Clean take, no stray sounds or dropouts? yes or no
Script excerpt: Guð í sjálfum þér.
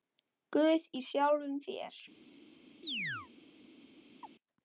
no